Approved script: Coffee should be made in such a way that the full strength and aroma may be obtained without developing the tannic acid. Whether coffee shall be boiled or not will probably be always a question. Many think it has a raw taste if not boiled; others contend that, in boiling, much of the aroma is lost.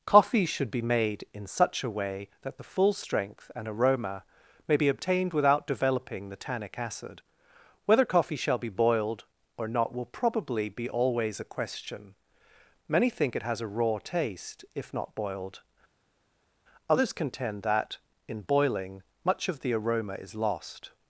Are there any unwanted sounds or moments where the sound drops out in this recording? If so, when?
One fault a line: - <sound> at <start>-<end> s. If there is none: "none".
none